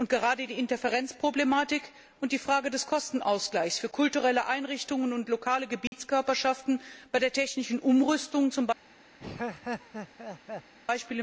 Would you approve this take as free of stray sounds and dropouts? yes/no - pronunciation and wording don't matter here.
no